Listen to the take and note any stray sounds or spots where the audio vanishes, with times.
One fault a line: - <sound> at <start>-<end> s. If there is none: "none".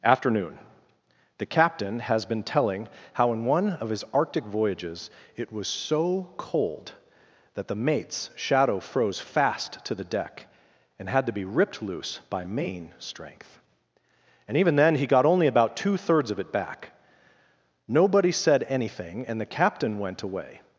none